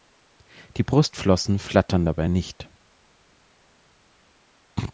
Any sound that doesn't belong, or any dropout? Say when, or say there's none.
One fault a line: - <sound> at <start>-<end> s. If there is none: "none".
none